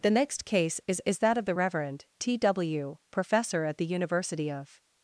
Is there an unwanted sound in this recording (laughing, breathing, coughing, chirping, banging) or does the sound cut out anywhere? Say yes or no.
no